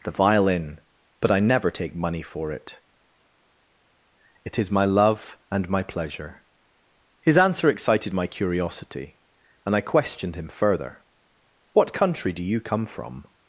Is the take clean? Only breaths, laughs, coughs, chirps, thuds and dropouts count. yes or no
yes